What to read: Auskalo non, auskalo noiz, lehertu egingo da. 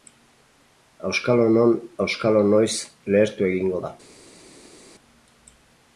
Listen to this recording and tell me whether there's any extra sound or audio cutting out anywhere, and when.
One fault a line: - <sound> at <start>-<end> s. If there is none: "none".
none